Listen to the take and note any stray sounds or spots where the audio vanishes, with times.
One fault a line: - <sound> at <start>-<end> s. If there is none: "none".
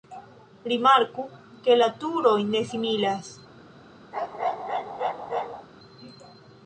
- bark at 4.1-5.7 s